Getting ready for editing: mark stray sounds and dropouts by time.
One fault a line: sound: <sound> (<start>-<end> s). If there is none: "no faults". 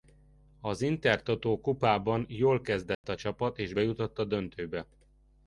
sound: dropout (2.9-3.0 s)